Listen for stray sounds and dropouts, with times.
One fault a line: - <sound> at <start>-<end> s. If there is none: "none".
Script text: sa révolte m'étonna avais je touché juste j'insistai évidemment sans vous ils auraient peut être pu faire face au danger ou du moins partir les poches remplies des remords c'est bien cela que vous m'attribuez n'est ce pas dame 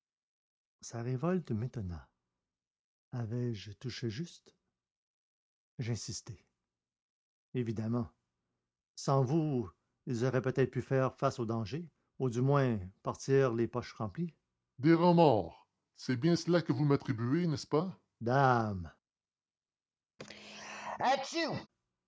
- sneeze at 20.2-21.7 s